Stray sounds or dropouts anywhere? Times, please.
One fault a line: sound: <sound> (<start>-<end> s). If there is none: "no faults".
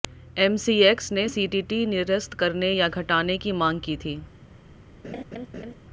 sound: laugh (5.0-5.7 s)